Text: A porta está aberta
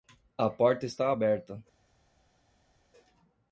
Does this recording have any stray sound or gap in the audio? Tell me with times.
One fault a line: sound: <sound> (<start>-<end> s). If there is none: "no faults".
no faults